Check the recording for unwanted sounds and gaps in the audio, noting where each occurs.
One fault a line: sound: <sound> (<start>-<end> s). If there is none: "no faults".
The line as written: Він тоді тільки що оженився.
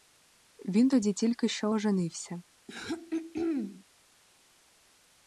sound: throat clearing (2.7-3.8 s)